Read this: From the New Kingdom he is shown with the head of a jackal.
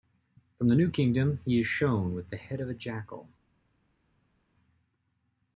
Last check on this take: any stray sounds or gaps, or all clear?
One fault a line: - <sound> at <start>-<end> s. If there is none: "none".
none